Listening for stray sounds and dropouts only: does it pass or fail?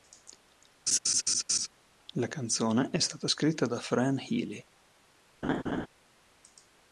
fail